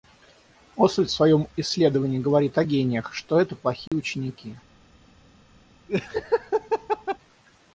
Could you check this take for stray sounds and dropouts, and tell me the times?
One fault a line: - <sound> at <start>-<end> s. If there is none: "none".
- dropout at 3.9-3.9 s
- laugh at 5.9-7.2 s